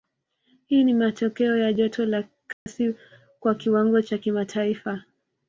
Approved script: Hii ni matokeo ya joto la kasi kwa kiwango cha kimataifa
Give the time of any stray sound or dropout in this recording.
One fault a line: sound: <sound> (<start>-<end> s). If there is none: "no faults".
sound: dropout (2.5-2.7 s)